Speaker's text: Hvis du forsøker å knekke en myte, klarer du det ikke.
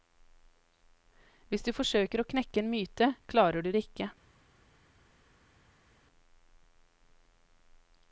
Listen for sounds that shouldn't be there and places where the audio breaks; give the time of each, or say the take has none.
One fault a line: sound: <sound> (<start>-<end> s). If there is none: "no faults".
no faults